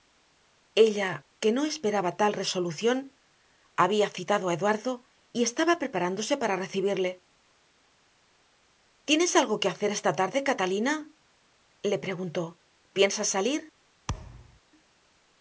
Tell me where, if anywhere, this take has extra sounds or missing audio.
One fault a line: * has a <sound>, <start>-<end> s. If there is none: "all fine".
* has a thud, 14.1-14.6 s